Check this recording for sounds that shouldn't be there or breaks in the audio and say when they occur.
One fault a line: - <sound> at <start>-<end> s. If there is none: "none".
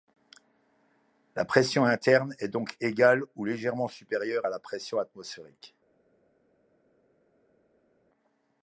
none